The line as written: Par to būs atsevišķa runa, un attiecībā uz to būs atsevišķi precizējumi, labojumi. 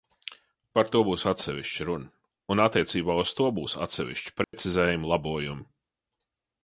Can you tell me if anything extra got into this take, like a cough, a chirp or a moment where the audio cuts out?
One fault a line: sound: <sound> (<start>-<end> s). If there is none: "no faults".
sound: dropout (4.4-4.5 s)